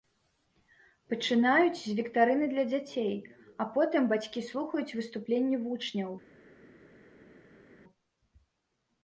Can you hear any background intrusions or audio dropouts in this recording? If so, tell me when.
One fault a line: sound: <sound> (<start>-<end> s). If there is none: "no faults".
no faults